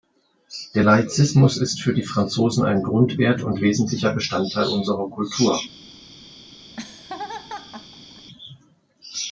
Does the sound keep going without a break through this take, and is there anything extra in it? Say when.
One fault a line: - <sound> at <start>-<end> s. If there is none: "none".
- laugh at 6.7-8.3 s